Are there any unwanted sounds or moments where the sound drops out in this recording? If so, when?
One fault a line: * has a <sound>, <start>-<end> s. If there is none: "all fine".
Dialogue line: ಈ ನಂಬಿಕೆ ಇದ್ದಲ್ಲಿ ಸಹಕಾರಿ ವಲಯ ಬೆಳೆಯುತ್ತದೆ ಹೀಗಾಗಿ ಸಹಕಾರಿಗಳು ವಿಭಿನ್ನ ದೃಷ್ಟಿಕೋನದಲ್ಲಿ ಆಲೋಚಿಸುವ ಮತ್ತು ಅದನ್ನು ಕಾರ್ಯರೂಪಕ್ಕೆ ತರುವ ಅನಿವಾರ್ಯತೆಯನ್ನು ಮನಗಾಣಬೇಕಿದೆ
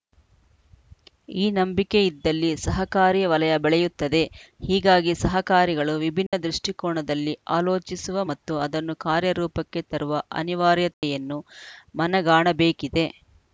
* has a dropout, 6.3-6.3 s
* has a dropout, 10.9-11.0 s